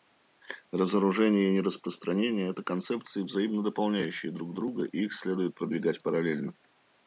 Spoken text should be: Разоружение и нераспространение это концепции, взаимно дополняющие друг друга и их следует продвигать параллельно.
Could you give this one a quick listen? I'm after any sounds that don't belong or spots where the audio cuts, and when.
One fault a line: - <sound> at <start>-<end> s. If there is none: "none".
none